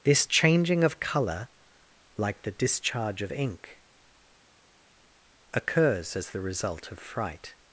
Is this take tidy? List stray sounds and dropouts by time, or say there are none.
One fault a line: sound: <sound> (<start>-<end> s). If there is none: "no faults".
no faults